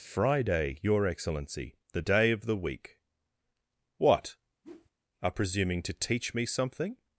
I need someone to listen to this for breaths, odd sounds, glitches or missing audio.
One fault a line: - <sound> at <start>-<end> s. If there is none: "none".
- whoosh at 4.6-4.9 s